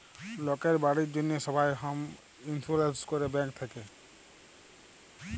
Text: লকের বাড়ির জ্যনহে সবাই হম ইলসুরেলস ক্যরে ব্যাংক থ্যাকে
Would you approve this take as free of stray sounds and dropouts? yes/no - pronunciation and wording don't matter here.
yes